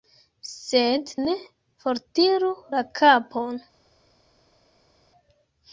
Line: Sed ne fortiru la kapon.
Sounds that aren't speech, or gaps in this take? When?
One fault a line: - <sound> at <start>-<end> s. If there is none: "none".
none